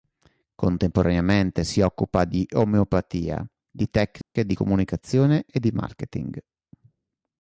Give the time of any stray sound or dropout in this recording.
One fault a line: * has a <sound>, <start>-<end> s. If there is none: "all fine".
* has a dropout, 4.2-4.4 s